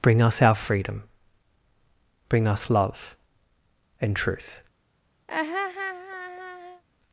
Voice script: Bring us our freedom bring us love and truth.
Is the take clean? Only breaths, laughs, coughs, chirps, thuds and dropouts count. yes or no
no